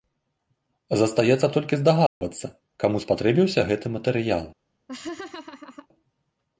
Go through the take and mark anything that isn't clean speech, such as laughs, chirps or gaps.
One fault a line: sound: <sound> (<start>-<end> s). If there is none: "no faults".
sound: dropout (2.1-2.2 s)
sound: laugh (4.9-5.9 s)